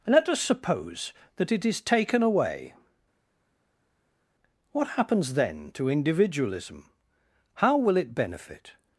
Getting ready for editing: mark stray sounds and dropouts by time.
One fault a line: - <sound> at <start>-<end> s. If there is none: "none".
none